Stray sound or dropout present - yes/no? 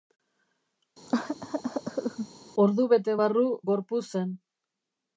yes